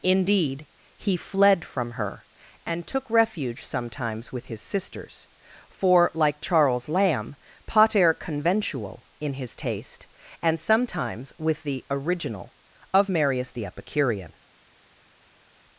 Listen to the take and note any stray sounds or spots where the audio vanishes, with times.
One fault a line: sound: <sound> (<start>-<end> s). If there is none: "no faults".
no faults